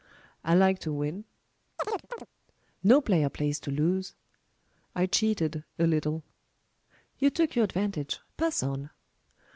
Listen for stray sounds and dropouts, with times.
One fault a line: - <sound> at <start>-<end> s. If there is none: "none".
- chirp at 1.8-2.3 s